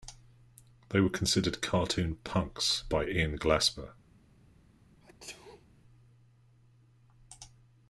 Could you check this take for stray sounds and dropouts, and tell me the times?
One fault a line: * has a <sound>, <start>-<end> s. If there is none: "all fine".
* has a sneeze, 5.0-5.7 s